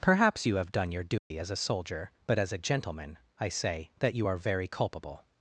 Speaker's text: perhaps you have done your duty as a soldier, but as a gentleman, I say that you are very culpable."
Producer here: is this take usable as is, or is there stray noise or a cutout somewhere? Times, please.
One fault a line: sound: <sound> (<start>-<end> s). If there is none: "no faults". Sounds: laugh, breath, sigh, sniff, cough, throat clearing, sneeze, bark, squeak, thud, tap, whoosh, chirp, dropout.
sound: dropout (1.2-1.3 s)